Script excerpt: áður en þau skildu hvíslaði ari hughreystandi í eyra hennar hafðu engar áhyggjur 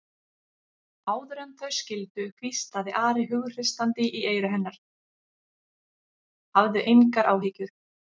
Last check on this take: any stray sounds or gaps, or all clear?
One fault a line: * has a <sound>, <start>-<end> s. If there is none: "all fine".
all fine